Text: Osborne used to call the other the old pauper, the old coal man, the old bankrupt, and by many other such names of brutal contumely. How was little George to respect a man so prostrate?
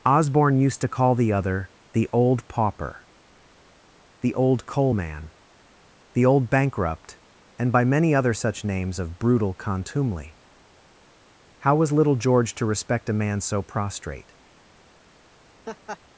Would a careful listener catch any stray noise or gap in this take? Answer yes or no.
yes